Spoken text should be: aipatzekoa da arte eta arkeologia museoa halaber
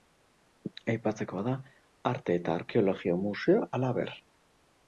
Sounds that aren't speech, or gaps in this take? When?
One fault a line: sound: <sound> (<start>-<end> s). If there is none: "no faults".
no faults